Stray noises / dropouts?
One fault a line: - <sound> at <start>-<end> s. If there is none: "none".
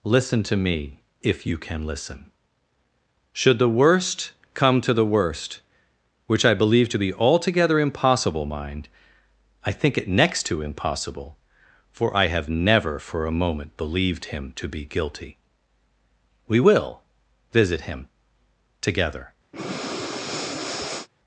- breath at 19.5-21.1 s